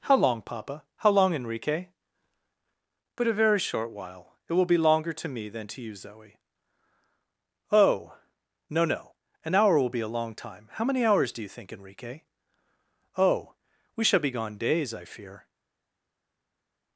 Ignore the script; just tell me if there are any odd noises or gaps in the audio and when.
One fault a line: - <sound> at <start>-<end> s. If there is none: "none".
none